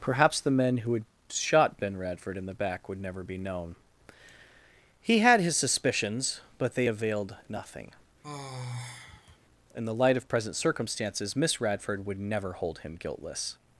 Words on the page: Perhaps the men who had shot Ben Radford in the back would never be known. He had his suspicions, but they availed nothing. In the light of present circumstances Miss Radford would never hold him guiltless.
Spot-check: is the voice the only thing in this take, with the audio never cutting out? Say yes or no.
no